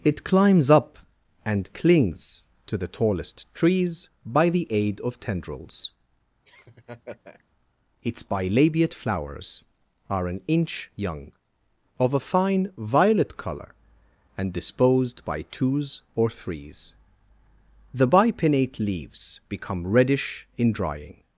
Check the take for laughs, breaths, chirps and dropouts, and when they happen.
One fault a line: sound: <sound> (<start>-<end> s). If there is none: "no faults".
sound: laugh (6.4-7.4 s)